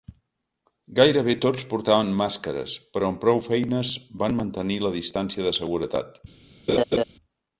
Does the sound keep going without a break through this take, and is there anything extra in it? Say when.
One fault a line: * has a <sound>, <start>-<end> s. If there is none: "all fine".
* has a laugh, 6.7-7.0 s